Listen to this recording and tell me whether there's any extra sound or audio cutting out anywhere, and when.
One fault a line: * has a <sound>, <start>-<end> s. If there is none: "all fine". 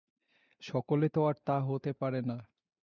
all fine